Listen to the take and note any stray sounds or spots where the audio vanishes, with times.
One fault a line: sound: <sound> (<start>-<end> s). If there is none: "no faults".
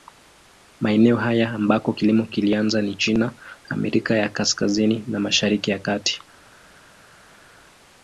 no faults